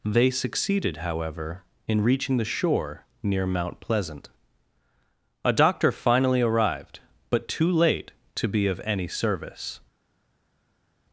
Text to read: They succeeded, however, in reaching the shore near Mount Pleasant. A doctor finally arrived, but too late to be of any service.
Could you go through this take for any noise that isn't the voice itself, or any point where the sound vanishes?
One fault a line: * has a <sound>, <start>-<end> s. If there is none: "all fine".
all fine